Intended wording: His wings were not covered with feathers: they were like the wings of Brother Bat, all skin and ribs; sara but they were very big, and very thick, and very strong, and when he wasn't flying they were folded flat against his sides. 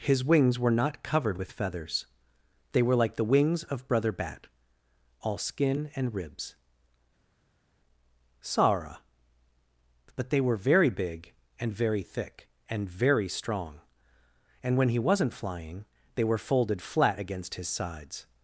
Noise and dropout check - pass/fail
pass